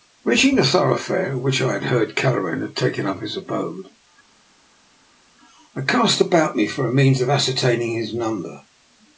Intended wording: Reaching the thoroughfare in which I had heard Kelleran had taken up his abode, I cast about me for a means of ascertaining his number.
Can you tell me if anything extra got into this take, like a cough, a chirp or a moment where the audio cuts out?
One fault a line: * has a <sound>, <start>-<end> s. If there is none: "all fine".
all fine